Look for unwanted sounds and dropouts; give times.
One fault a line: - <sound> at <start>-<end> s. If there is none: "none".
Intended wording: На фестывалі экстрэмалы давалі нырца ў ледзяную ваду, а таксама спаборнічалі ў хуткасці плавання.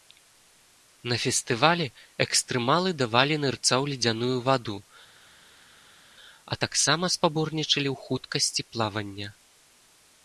none